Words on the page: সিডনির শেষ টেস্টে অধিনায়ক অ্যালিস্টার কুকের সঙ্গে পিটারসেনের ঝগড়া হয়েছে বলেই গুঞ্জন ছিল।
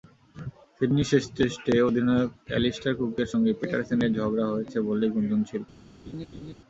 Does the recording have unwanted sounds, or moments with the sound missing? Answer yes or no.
yes